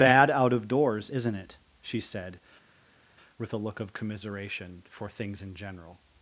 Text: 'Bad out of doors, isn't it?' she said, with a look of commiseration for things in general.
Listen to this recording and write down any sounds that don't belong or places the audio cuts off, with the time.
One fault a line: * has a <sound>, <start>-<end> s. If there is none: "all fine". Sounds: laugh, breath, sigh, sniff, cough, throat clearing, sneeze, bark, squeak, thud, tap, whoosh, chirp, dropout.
all fine